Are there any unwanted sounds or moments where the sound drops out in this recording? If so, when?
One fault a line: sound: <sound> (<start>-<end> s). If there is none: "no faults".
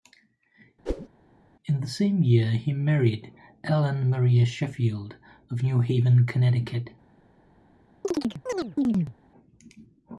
sound: whoosh (0.9-1.1 s)
sound: chirp (8.0-9.1 s)